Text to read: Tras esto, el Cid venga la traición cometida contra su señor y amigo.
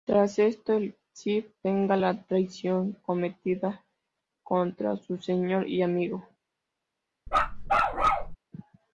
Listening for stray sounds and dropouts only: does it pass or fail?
fail